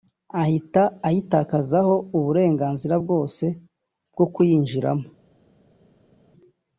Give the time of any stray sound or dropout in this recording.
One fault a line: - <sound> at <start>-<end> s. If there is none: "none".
none